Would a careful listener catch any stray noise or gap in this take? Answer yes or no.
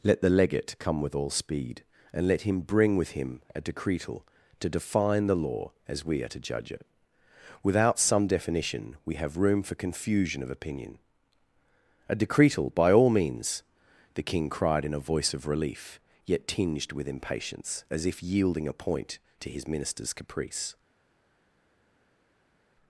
no